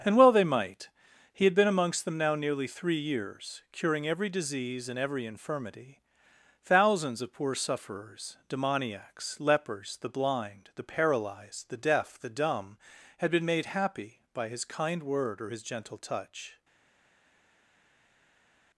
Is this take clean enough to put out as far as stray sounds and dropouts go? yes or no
yes